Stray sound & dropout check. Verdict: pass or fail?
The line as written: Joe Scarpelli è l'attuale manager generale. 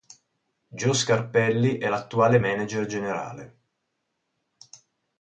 pass